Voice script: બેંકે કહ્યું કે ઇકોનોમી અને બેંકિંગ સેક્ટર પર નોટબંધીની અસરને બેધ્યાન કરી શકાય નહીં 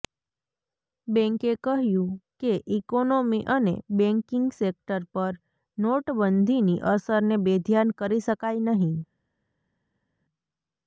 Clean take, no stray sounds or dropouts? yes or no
yes